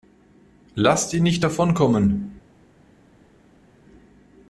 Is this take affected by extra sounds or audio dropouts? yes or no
no